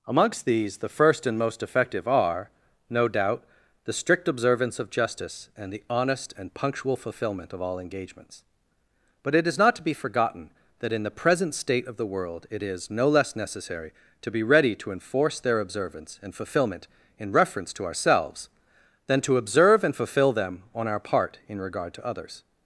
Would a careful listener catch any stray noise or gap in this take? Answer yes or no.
no